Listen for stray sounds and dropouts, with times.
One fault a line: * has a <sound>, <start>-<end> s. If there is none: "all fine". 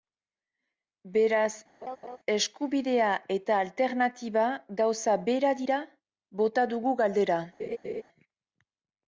* has a laugh, 1.8-2.2 s
* has a laugh, 7.6-8.0 s